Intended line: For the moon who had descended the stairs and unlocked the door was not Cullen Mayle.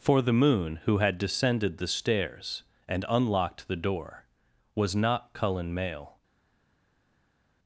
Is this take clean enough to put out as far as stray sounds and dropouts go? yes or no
yes